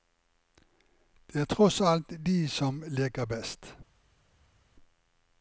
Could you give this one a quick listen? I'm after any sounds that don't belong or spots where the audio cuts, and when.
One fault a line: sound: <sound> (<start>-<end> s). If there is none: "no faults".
no faults